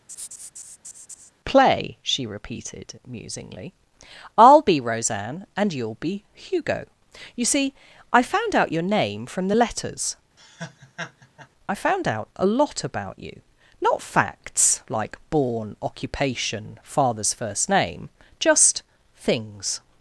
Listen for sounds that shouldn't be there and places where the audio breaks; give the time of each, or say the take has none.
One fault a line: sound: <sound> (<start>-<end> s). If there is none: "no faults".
sound: laugh (0.1-1.3 s)
sound: laugh (10.4-11.5 s)